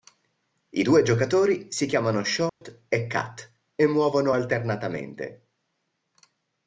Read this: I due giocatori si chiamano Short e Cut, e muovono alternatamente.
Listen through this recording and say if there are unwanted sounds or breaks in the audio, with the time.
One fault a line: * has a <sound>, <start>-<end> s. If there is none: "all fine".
* has a dropout, 2.5-2.6 s